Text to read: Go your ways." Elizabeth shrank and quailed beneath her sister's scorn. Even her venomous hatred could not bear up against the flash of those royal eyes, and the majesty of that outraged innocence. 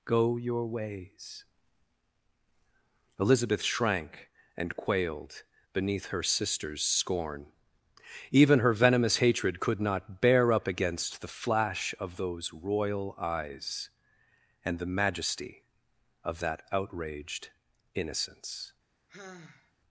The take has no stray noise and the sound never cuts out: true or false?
false